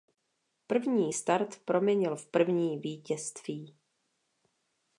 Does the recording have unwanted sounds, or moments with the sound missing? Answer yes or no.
no